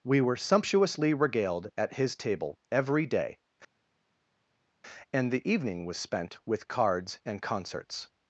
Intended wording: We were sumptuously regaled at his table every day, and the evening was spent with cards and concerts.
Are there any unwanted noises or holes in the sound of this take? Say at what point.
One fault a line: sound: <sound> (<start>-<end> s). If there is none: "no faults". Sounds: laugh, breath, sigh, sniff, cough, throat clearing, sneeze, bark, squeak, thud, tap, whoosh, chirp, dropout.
no faults